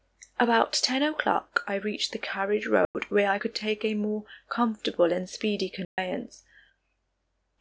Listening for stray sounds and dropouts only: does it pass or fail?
fail